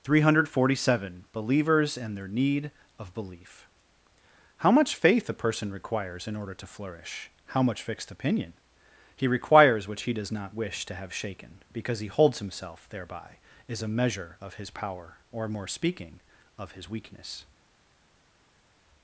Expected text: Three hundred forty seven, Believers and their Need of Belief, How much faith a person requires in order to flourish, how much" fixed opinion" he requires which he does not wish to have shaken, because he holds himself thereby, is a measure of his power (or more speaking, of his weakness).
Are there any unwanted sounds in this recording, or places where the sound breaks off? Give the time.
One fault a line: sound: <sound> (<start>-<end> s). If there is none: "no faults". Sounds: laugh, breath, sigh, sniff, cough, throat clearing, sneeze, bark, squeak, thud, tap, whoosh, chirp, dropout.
no faults